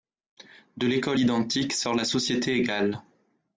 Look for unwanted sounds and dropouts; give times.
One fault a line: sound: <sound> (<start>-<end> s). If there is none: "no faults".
no faults